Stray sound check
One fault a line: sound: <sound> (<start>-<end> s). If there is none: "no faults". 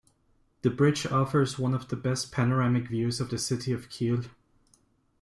no faults